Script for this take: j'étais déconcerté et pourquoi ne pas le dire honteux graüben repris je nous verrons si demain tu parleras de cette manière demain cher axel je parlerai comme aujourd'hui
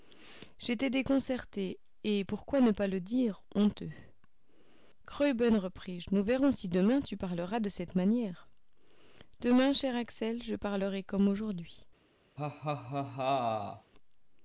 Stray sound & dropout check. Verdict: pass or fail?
fail